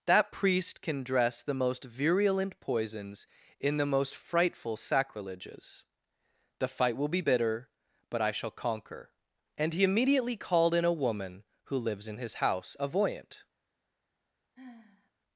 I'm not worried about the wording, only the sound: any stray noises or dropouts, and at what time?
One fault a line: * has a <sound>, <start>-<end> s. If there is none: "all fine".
* has a sigh, 14.6-15.1 s